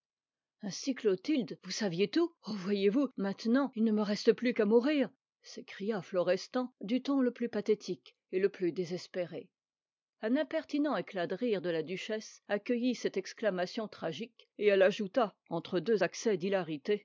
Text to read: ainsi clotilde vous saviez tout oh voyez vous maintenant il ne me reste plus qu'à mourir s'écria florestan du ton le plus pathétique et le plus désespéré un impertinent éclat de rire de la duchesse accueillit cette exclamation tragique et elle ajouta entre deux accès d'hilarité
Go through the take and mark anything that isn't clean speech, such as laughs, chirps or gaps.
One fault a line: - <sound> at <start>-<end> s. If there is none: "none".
none